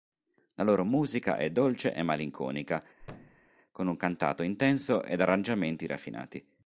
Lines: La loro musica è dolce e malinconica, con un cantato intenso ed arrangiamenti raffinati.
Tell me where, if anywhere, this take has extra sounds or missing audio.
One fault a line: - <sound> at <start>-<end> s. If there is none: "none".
- thud at 3.0-3.5 s